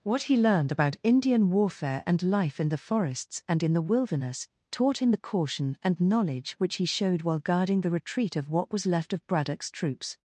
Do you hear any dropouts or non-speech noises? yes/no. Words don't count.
no